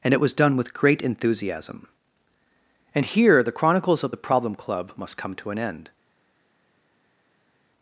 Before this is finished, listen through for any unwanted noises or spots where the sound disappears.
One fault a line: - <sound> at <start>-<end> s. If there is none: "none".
none